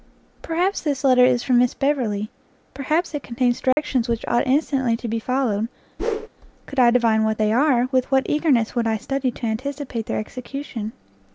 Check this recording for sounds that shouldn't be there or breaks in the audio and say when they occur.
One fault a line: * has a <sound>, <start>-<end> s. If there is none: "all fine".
* has a dropout, 3.7-3.8 s
* has a whoosh, 6.0-6.3 s